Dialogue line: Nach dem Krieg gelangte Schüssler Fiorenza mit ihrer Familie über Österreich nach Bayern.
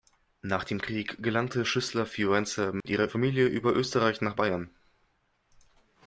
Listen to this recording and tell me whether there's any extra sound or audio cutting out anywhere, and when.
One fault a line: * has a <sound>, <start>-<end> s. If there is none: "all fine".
* has a dropout, 2.8-2.8 s